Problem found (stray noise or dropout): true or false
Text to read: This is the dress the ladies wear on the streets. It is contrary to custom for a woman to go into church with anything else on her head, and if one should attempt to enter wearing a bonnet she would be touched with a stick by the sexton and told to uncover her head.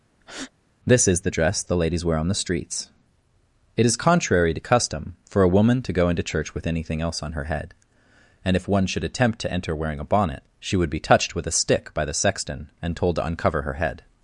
true